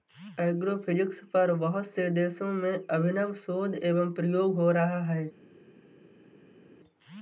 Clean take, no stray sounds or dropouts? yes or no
yes